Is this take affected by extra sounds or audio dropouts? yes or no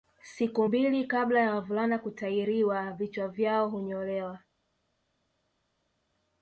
no